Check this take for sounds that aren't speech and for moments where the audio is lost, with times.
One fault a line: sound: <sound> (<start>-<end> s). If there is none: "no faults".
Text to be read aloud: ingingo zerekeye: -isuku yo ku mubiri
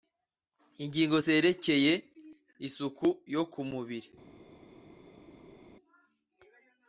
no faults